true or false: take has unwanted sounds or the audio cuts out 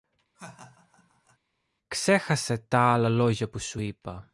true